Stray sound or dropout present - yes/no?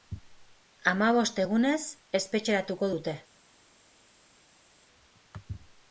no